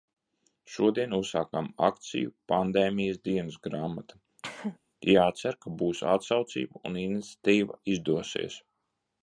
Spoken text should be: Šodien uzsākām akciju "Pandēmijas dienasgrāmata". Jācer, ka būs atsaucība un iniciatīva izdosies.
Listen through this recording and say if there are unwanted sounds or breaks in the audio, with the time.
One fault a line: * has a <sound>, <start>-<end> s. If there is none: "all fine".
* has a cough, 4.4-4.8 s